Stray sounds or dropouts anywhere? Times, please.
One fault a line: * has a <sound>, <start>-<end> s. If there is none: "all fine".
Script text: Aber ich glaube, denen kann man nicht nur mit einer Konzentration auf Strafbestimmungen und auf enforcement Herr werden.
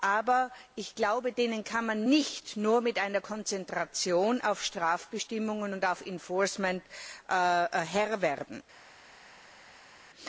all fine